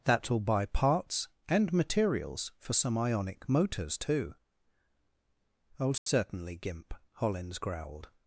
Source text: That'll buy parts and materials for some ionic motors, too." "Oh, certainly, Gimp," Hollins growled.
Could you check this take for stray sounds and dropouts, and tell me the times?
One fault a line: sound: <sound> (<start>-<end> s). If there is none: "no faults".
sound: dropout (6.0-6.1 s)